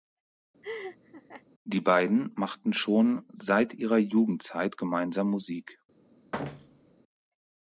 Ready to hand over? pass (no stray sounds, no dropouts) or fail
fail